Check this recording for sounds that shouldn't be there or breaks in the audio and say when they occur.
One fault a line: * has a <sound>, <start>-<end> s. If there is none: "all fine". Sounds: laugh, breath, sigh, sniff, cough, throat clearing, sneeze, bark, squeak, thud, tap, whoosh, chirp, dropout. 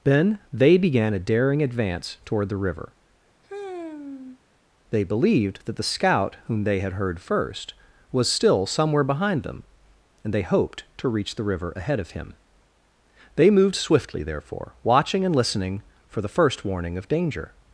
* has a sigh, 3.4-4.4 s